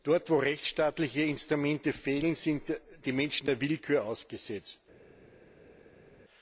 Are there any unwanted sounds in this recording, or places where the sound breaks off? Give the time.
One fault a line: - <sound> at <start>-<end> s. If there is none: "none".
none